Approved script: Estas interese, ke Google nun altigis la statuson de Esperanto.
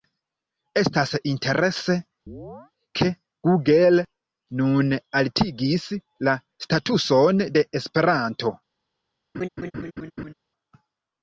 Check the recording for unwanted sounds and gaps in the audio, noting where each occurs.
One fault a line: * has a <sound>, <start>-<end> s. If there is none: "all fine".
* has a chirp, 2.3-2.7 s
* has a laugh, 9.3-10.3 s